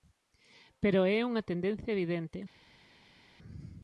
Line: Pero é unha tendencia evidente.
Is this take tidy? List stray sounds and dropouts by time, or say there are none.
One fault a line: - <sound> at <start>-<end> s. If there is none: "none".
none